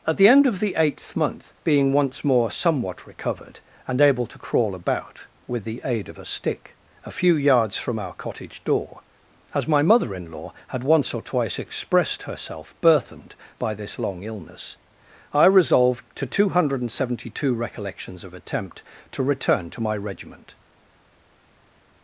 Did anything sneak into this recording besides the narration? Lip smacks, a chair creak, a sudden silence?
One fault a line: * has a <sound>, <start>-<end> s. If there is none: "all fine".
all fine